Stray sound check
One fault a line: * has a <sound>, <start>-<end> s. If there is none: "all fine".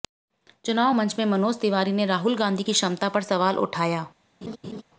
* has a laugh, 4.4-4.8 s